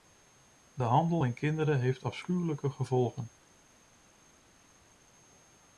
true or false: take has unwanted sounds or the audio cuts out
false